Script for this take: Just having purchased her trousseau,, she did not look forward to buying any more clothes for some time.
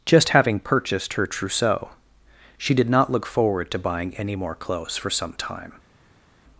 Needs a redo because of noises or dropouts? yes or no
no